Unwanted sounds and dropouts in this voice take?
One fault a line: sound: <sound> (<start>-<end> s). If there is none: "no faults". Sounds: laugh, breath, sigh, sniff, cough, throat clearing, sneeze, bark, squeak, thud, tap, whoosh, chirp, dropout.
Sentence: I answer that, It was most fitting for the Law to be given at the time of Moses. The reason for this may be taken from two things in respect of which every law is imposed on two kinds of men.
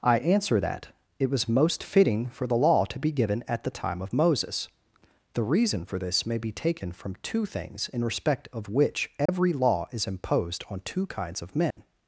sound: dropout (9.3-9.3 s)
sound: dropout (11.7-11.8 s)